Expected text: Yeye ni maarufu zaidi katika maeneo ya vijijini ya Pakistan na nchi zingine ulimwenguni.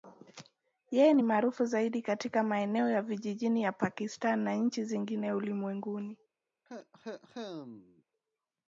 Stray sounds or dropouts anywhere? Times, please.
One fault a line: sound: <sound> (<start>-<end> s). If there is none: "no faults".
sound: cough (6.7-8.0 s)